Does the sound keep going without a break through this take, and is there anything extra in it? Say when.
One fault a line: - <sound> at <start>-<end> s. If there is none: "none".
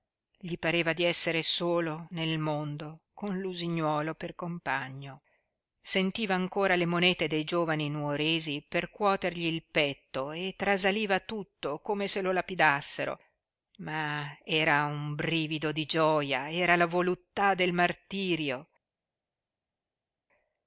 none